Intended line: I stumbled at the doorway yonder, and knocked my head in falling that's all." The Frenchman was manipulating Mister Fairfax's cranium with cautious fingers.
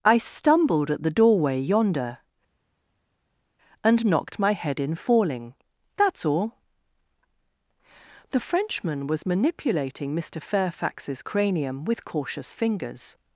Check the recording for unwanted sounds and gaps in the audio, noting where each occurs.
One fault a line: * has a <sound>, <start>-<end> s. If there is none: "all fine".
all fine